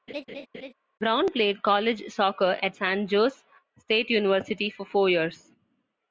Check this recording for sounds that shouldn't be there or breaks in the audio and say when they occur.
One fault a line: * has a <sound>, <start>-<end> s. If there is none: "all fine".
* has a laugh, 0.1-0.7 s